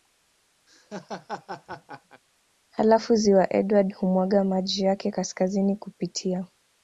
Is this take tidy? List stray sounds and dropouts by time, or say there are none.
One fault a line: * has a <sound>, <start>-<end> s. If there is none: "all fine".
* has a laugh, 0.7-2.2 s